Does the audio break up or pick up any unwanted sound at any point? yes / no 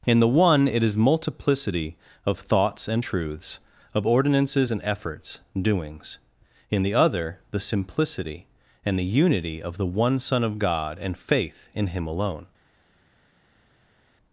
no